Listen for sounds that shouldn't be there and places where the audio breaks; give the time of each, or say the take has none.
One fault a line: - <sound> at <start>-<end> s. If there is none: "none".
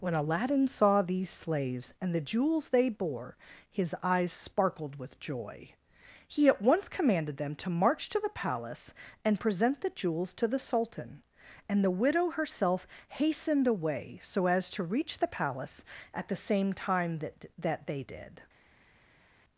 none